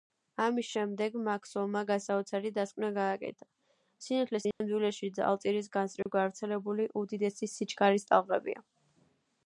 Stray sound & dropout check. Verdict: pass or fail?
fail